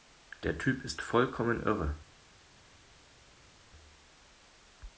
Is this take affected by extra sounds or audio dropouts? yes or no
no